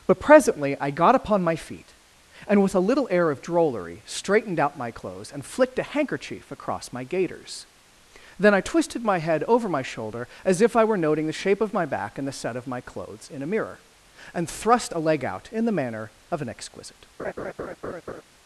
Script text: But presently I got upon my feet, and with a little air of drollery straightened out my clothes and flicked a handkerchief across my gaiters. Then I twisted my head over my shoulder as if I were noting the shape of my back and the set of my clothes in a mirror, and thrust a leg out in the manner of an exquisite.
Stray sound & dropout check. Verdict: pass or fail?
fail